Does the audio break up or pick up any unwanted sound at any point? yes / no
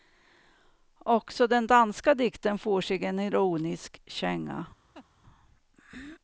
yes